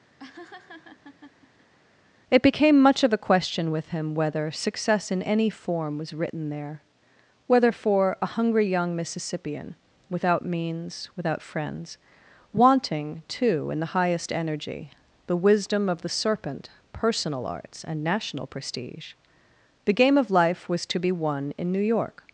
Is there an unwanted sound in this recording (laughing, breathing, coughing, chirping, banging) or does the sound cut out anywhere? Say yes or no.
yes